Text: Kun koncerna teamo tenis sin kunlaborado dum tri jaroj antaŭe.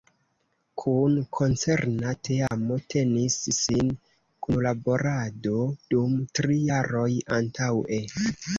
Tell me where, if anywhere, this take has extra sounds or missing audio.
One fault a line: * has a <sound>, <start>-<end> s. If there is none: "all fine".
* has a dropout, 2.5-2.5 s